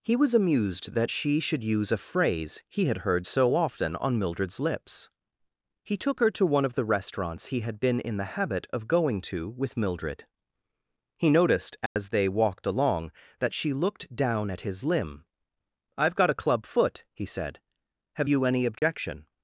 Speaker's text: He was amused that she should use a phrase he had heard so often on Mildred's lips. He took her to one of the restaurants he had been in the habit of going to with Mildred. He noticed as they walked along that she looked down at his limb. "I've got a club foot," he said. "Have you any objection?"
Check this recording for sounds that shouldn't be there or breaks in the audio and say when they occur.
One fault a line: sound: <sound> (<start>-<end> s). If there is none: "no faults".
sound: dropout (11.9-12.0 s)
sound: dropout (18.8-18.8 s)